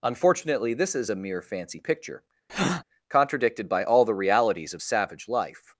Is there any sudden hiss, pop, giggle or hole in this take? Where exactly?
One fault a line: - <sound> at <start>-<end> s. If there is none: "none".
- breath at 2.5-2.8 s